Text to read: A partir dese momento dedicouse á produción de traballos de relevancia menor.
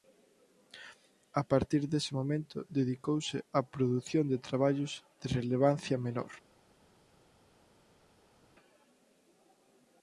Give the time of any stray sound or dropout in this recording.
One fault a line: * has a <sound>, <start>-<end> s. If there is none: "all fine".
all fine